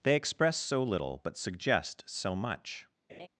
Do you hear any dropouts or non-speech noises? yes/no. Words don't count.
yes